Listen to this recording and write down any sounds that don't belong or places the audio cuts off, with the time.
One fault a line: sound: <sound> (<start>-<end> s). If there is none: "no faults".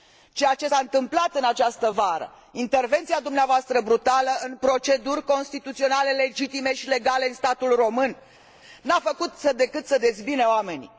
no faults